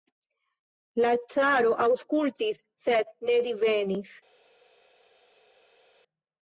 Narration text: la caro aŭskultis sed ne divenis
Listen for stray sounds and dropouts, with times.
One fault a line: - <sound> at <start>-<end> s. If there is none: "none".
none